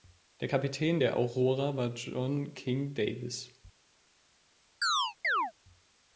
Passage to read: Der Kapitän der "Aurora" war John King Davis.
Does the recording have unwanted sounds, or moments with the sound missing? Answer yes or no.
yes